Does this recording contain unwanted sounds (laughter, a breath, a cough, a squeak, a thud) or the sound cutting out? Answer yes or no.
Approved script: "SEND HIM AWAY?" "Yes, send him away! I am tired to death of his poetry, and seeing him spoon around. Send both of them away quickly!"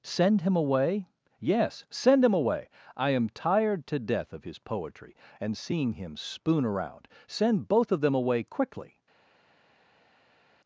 no